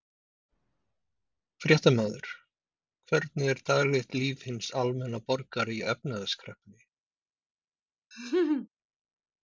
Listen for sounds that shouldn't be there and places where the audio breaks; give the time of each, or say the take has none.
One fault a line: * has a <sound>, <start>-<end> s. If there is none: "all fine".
* has a laugh, 8.1-8.7 s